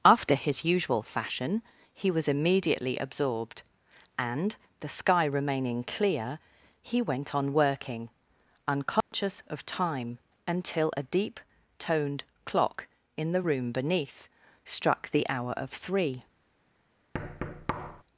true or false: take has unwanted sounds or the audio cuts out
true